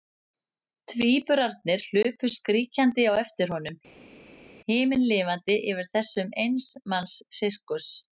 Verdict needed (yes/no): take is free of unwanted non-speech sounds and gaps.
yes